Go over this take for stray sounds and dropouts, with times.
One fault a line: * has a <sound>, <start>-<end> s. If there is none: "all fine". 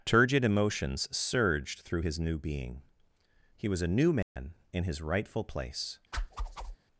* has a dropout, 4.2-4.4 s
* has a whoosh, 6.1-6.8 s